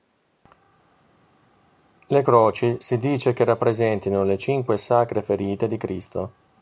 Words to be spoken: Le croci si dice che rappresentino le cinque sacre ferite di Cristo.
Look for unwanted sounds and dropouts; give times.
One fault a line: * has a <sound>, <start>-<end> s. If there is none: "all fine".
all fine